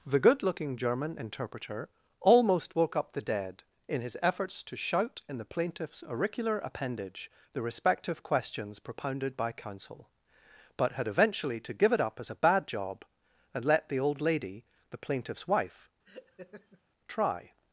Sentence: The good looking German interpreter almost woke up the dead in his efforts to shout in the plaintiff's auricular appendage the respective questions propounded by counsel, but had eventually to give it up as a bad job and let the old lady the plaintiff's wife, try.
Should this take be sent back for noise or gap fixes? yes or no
yes